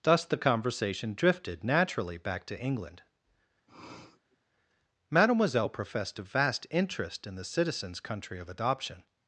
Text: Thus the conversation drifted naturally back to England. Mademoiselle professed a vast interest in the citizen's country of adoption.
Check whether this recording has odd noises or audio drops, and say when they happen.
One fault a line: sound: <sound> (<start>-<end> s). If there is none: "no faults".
sound: sniff (3.7-4.4 s)